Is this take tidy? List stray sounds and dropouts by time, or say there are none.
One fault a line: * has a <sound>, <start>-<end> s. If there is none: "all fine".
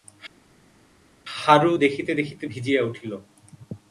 all fine